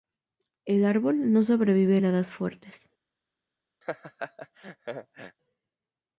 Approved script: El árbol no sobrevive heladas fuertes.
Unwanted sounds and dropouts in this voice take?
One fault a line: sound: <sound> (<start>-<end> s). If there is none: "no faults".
sound: laugh (3.8-5.4 s)